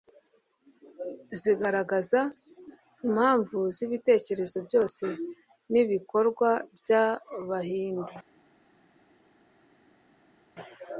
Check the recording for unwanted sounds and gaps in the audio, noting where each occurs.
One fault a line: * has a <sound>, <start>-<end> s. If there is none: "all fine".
all fine